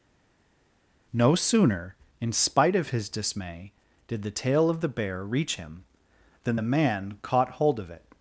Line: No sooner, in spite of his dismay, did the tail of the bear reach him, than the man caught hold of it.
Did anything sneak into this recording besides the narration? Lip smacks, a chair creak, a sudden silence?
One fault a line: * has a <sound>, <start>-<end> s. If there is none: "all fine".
all fine